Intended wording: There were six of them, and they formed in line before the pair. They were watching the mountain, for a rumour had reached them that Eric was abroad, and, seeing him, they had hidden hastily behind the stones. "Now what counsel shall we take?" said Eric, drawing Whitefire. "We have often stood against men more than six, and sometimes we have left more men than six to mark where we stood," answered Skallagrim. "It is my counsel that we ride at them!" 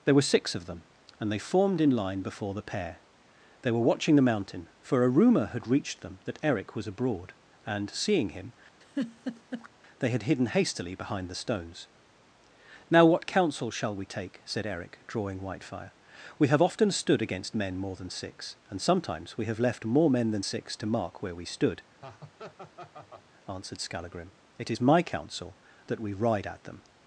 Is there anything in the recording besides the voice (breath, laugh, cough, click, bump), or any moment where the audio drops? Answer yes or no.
yes